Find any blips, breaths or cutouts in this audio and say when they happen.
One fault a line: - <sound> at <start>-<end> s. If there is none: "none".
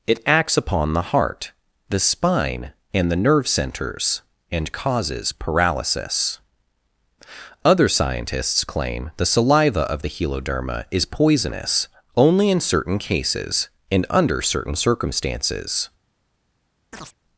- chirp at 16.9-17.1 s